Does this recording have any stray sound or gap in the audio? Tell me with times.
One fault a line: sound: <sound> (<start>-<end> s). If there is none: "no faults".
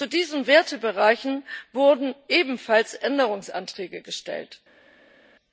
no faults